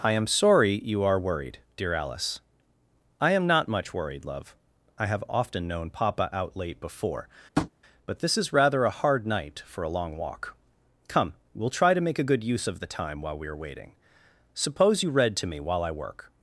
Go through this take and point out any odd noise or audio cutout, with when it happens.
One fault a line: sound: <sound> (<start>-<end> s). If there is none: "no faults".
sound: tap (7.6-7.7 s)